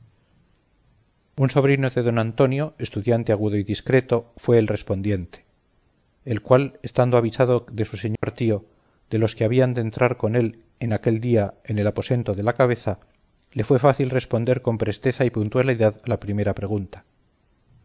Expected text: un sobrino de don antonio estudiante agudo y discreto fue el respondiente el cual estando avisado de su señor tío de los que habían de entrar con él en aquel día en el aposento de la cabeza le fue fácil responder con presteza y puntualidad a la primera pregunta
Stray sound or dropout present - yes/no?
yes